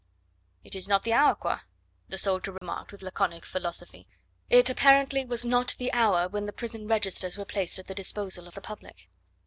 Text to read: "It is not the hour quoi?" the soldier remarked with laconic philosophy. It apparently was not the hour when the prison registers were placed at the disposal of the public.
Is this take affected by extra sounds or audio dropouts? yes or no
yes